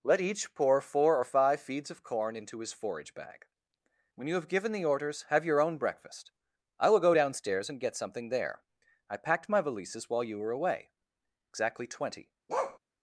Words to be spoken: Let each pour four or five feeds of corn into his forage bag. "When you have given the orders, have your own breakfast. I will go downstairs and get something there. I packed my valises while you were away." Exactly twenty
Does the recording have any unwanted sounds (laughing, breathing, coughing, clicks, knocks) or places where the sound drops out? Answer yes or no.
yes